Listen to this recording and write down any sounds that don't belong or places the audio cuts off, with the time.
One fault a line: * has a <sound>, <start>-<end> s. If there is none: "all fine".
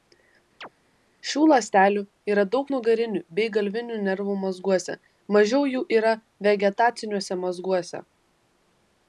* has a chirp, 0.6-0.7 s